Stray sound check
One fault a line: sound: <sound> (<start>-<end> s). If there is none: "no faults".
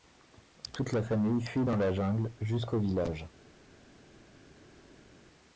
no faults